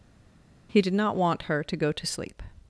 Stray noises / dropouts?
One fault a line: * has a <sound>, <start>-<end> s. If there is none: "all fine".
all fine